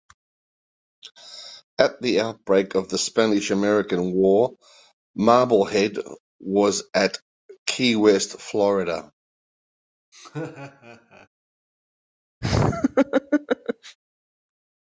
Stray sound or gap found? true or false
true